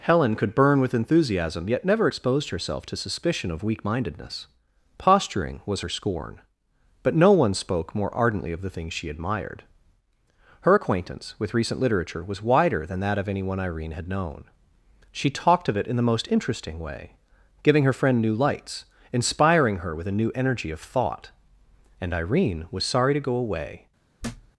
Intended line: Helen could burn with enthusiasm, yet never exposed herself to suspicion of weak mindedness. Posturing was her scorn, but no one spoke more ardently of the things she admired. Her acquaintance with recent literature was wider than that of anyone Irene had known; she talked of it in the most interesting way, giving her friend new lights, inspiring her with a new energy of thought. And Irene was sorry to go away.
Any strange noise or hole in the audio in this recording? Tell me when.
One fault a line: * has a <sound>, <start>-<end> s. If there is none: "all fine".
* has a thud, 24.2-24.5 s